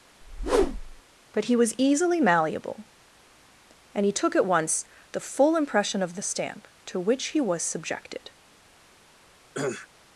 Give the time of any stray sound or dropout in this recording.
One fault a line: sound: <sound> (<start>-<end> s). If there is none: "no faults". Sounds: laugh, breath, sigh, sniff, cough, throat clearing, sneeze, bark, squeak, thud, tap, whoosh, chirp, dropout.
sound: whoosh (0.2-1.0 s)
sound: cough (9.5-9.9 s)